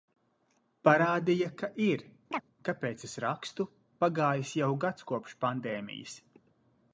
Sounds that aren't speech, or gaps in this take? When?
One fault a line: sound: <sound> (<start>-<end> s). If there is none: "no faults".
sound: chirp (2.3-2.4 s)